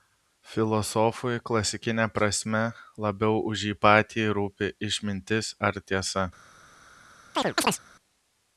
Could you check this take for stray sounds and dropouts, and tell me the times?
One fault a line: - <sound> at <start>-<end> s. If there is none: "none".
- chirp at 7.3-7.8 s